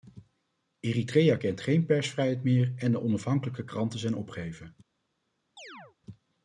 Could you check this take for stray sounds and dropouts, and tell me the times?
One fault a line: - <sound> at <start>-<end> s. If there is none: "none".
- chirp at 5.6-6.0 s